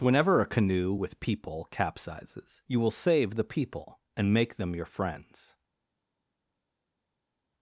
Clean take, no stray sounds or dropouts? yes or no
yes